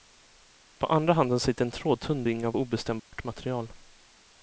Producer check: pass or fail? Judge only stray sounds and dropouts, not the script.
fail